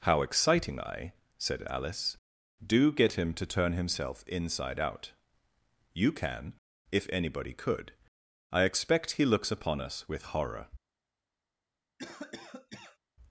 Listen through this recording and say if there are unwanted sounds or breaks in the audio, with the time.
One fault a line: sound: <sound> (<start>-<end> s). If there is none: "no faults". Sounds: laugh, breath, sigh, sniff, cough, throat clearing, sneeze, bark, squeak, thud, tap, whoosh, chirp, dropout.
sound: cough (12.0-13.0 s)